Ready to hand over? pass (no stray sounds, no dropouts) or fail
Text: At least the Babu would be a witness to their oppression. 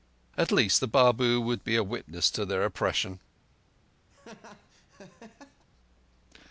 fail